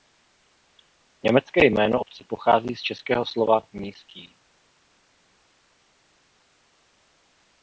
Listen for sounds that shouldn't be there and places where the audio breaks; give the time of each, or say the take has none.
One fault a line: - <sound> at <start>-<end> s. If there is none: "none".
none